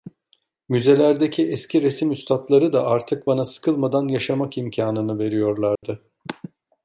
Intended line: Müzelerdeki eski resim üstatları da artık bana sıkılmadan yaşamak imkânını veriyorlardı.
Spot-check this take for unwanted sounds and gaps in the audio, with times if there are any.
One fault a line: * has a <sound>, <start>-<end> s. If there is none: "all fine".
* has a dropout, 5.8-5.8 s